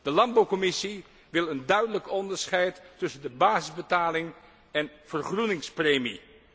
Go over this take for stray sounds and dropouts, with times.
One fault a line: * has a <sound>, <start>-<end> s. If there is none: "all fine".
all fine